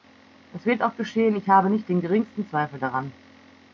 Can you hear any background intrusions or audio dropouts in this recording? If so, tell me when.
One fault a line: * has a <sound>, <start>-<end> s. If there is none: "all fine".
all fine